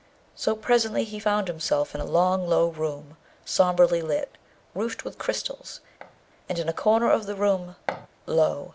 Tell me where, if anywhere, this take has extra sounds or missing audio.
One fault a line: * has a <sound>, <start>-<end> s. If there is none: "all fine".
* has a thud, 6.0-6.2 s
* has a thud, 7.9-8.1 s